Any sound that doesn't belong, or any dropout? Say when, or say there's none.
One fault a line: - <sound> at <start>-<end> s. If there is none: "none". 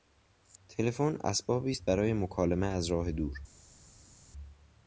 none